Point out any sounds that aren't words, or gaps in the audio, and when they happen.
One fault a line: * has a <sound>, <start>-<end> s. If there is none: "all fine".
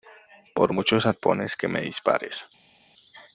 all fine